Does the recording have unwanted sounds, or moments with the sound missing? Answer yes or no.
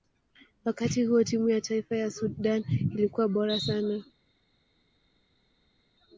no